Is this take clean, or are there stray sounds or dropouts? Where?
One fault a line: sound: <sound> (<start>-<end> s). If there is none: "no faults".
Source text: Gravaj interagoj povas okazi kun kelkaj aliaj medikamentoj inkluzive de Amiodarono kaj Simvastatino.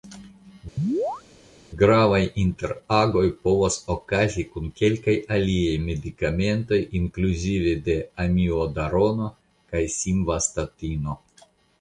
sound: chirp (0.8-1.2 s)